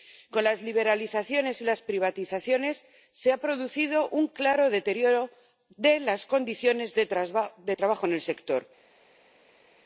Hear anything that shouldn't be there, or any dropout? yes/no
no